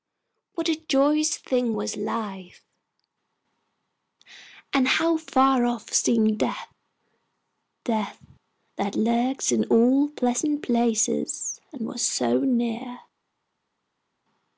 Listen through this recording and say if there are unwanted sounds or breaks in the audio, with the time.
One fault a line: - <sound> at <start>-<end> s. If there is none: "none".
none